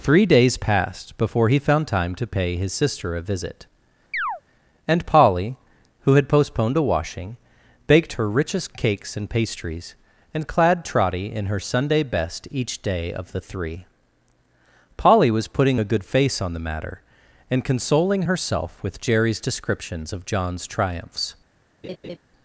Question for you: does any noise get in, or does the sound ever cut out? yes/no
yes